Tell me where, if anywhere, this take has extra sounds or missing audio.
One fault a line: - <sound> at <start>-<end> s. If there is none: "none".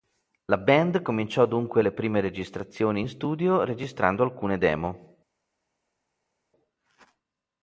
none